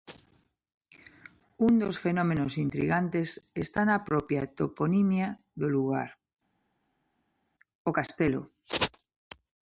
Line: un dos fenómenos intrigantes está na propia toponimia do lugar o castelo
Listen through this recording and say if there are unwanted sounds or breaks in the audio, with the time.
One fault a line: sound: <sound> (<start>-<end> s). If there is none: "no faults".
no faults